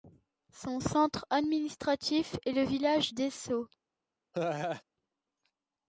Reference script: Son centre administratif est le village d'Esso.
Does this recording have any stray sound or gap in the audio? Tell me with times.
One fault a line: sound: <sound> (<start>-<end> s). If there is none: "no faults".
sound: laugh (4.3-4.8 s)